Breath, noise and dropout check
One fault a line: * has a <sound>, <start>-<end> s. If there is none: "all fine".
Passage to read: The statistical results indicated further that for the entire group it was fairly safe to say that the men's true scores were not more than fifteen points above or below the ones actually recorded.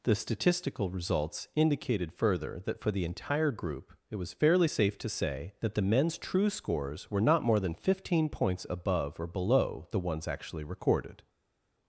all fine